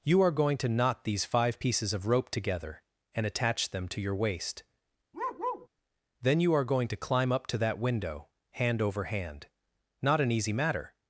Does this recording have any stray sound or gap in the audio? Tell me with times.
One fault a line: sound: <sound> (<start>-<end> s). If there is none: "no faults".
sound: bark (5.1-5.7 s)